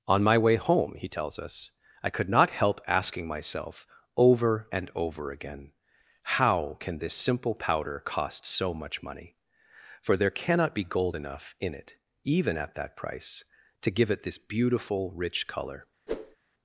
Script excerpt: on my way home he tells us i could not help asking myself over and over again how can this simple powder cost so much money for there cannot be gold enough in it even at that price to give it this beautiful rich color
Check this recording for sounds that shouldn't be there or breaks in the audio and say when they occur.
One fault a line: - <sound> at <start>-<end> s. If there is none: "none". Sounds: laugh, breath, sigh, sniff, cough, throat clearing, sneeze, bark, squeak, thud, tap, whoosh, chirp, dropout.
- whoosh at 16.1-16.4 s